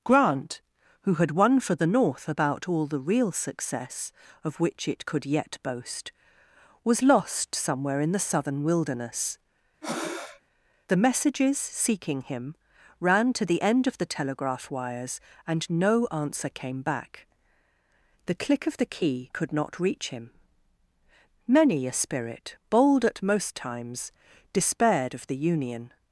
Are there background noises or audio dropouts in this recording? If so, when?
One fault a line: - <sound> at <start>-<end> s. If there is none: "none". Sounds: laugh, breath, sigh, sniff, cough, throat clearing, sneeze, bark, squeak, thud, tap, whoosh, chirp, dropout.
- breath at 9.8-10.4 s